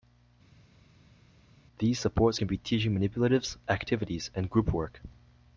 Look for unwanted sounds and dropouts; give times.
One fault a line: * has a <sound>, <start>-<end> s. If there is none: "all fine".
all fine